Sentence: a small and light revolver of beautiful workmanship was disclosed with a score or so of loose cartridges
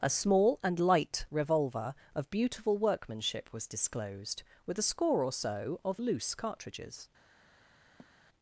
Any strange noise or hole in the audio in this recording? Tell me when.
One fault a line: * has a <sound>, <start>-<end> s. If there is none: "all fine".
* has a sigh, 8.0-8.2 s